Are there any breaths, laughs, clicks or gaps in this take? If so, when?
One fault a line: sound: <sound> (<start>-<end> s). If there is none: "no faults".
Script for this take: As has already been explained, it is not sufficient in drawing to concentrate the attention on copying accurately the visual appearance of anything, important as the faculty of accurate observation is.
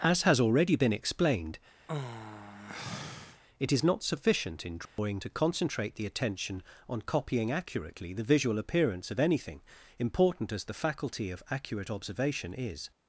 sound: sigh (1.9-3.4 s)
sound: dropout (4.9-5.0 s)